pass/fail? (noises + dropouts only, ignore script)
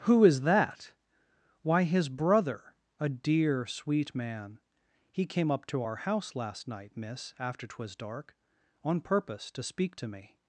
pass